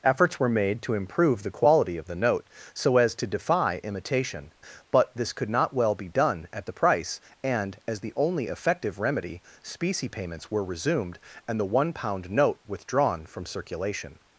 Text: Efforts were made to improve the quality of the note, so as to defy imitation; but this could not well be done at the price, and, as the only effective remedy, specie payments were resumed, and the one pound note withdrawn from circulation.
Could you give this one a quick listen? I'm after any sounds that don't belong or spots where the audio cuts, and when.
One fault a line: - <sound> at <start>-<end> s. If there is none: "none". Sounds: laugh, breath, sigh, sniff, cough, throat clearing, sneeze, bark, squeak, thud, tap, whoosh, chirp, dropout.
none